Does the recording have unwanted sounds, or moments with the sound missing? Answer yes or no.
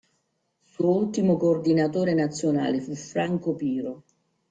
no